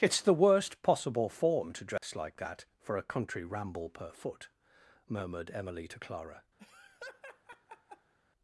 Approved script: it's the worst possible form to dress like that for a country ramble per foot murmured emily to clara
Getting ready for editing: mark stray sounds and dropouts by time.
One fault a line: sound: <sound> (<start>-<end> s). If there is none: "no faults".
sound: dropout (2.0-2.0 s)
sound: laugh (6.6-8.1 s)